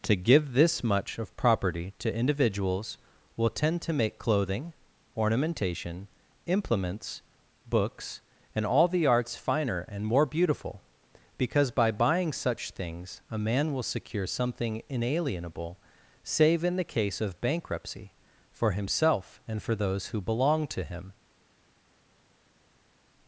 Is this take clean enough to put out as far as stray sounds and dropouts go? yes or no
yes